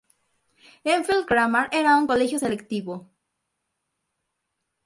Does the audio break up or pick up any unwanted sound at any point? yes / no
no